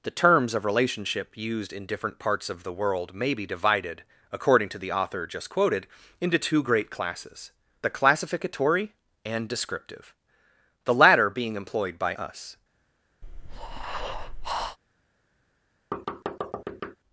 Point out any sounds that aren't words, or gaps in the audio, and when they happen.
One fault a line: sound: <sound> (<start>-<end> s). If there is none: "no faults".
sound: breath (13.2-14.8 s)
sound: thud (15.9-17.0 s)